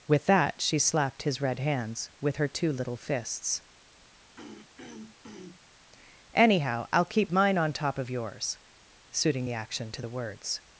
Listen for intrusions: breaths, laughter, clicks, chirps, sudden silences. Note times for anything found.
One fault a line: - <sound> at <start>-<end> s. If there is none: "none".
- throat clearing at 4.4-5.6 s